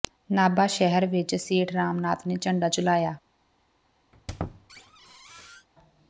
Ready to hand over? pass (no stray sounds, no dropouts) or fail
fail